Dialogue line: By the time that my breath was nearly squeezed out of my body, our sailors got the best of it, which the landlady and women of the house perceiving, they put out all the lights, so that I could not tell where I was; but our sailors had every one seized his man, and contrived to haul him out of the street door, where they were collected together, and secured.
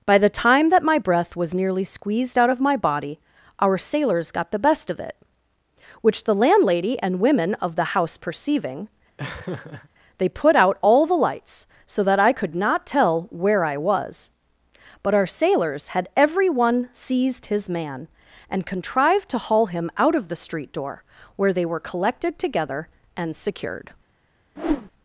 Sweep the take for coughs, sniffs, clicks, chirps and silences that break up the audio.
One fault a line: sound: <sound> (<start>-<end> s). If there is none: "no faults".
sound: laugh (9.2-9.9 s)
sound: whoosh (24.6-24.9 s)